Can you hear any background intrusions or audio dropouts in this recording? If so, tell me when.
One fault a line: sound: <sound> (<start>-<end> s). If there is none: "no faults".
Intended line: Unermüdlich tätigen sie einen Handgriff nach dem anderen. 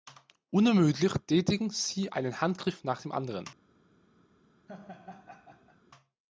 sound: laugh (4.7-5.8 s)